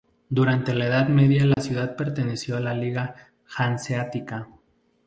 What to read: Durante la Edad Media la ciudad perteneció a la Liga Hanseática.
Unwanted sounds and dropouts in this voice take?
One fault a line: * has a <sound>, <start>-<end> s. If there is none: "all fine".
* has a dropout, 1.5-1.6 s